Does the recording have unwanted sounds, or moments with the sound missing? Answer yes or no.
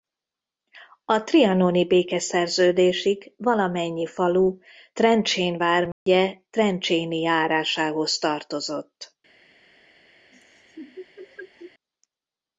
yes